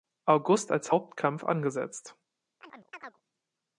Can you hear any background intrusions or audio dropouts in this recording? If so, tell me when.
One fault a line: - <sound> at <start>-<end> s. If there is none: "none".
- chirp at 2.6-3.2 s